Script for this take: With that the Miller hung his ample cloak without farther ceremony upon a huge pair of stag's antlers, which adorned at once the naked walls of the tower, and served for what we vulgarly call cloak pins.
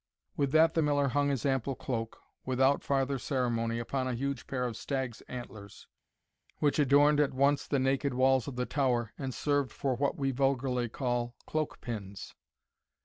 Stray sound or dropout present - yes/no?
no